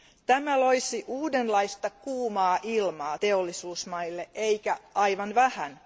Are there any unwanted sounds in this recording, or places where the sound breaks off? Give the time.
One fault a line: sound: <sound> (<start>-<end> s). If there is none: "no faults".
no faults